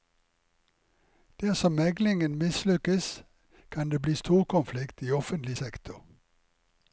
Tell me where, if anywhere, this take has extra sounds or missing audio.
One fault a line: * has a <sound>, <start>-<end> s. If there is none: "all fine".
all fine